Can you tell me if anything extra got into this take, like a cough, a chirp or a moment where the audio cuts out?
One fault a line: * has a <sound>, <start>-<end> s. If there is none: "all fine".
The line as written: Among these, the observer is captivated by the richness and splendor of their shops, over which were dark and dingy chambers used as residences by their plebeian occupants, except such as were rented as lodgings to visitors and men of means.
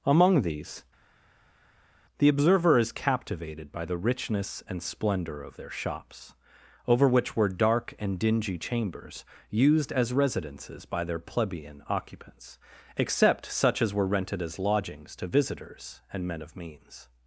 all fine